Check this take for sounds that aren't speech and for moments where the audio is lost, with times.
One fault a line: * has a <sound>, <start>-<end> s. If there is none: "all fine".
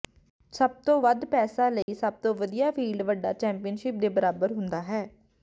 * has a dropout, 1.8-1.9 s